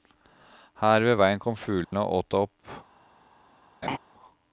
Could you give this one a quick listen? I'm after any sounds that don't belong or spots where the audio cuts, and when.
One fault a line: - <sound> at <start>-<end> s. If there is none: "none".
- dropout at 1.8-1.9 s
- laugh at 3.8-4.0 s